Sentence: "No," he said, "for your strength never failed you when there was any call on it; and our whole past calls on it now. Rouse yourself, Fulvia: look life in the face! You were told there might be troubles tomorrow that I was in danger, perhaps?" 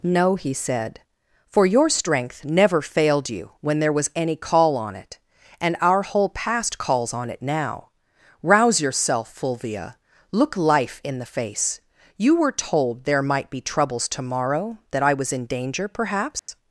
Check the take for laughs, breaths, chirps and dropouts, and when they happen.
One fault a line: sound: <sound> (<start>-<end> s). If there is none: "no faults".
sound: dropout (16.4-16.5 s)